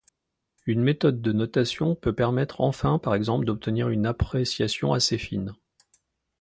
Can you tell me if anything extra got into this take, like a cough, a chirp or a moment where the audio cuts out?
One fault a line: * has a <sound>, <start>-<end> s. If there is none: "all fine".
all fine